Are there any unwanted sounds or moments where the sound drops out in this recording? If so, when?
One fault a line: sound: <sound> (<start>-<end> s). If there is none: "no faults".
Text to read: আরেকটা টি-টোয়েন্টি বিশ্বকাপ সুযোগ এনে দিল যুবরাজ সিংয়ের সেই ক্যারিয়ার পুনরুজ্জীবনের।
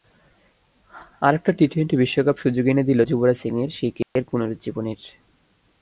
sound: dropout (4.0-4.2 s)